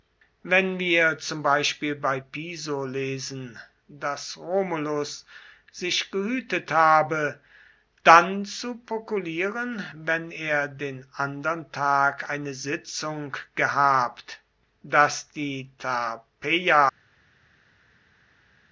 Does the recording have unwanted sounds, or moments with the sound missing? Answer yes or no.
no